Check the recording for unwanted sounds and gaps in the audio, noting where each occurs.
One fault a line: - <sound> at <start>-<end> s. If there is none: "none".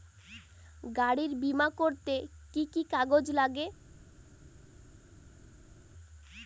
none